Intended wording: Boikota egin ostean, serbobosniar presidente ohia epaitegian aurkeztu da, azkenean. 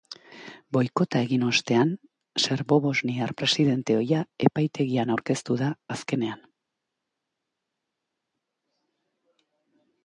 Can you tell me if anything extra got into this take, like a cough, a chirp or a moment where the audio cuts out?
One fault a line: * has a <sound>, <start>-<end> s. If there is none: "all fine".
all fine